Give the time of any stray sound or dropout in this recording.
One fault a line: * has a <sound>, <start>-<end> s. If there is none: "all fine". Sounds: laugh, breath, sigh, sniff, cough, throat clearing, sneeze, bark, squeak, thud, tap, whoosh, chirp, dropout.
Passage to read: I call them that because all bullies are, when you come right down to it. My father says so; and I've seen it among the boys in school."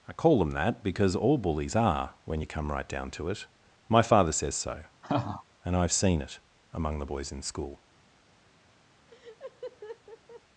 * has a laugh, 5.0-5.4 s
* has a laugh, 9.1-10.4 s